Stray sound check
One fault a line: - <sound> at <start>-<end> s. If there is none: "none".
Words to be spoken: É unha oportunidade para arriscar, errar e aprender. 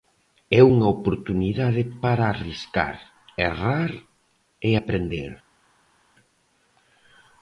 none